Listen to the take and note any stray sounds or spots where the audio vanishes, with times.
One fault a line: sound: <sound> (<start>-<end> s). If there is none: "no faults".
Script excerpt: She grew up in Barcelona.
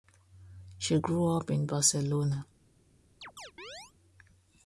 sound: chirp (3.2-3.9 s)